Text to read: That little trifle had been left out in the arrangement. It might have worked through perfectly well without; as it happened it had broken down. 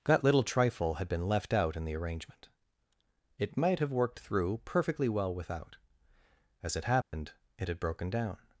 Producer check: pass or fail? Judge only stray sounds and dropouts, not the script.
fail